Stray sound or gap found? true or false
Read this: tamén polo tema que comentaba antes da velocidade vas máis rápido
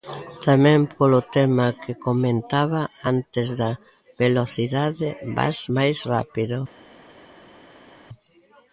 false